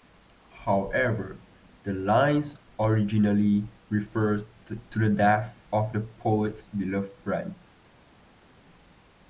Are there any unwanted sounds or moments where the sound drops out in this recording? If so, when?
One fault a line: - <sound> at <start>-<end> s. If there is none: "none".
none